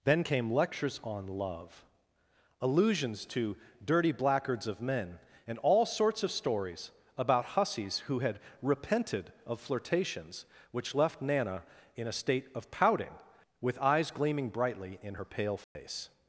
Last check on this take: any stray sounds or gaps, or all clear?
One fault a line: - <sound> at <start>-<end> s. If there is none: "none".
- dropout at 15.6-15.8 s